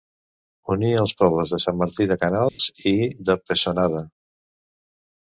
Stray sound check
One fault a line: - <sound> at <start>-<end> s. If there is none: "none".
- dropout at 2.5-2.6 s